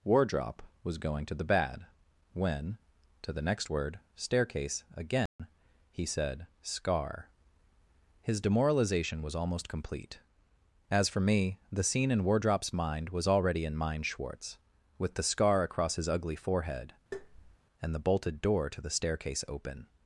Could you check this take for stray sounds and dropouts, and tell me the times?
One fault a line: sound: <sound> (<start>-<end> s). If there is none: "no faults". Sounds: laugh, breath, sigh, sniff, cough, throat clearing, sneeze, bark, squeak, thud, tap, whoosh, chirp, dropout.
sound: dropout (5.3-5.4 s)
sound: tap (17.1-17.6 s)